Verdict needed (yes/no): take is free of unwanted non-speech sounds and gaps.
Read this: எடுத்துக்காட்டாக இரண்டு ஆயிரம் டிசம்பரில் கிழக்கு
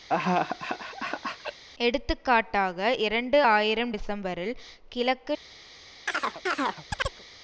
no